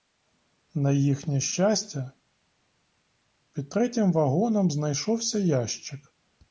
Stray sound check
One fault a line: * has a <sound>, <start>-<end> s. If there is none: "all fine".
all fine